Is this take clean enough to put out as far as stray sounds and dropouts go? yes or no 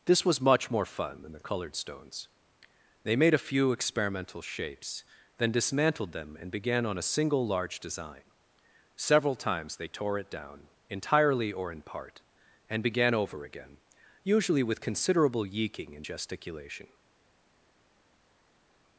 yes